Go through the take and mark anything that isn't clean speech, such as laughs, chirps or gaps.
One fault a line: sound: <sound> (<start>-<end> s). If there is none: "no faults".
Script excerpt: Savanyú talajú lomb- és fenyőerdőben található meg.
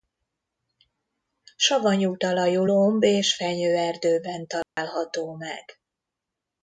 sound: dropout (4.6-4.8 s)